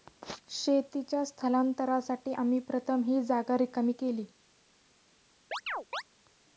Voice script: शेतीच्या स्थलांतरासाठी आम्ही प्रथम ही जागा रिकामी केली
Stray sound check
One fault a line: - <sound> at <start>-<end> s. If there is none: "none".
- chirp at 5.5-6.0 s